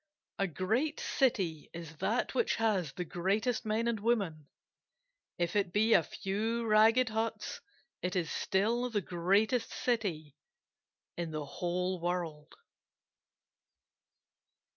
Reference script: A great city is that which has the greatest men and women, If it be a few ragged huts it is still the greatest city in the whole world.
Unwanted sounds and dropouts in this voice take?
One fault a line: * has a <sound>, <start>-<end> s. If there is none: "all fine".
all fine